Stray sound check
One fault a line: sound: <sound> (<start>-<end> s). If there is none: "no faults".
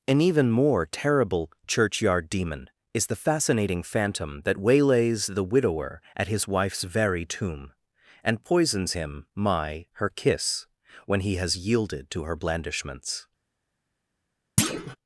sound: thud (14.6-15.0 s)